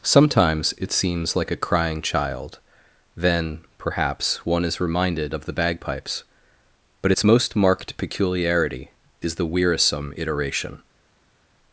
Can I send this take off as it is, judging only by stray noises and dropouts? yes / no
yes